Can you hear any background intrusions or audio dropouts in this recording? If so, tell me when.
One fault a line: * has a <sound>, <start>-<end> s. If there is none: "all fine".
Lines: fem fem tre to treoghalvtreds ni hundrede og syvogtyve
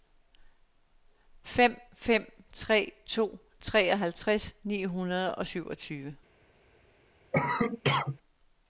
* has a cough, 7.3-8.2 s